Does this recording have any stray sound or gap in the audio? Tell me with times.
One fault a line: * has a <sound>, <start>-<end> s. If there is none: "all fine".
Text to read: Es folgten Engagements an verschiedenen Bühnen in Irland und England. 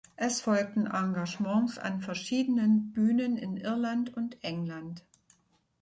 all fine